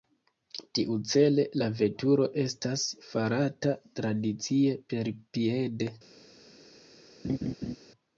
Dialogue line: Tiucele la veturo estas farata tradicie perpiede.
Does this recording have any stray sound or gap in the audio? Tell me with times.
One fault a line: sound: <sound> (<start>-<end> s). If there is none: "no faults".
sound: laugh (7.2-7.8 s)